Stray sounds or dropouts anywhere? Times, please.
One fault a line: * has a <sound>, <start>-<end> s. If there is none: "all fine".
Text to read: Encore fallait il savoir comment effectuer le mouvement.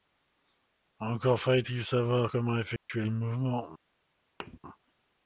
* has a dropout, 2.8-2.9 s
* has a thud, 4.4-4.6 s